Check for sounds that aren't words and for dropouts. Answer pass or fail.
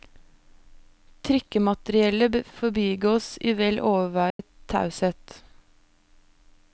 fail